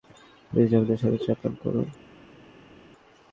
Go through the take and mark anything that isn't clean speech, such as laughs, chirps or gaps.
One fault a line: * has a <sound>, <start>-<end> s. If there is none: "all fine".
all fine